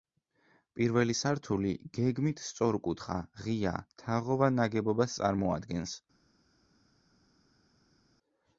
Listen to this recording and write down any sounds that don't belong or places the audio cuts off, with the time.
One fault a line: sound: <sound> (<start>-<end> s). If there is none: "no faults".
no faults